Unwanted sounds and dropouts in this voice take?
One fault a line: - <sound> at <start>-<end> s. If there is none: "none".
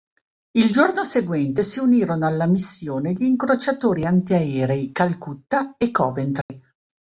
- dropout at 6.4-6.5 s